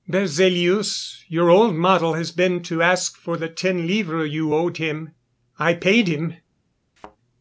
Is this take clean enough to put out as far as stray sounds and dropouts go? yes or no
no